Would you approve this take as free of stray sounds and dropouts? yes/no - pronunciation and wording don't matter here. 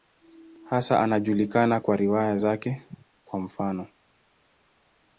yes